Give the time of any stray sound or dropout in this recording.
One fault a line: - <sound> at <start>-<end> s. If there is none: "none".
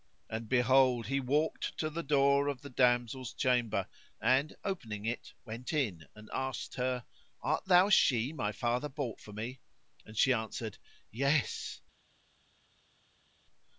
none